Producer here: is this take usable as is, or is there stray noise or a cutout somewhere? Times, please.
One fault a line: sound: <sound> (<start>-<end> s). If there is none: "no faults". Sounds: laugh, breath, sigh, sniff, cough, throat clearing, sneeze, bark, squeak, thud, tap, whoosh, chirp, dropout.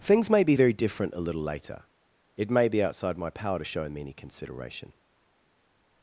no faults